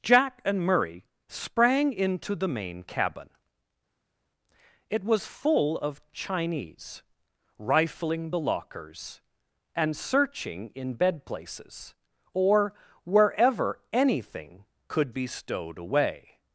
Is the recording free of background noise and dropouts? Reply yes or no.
yes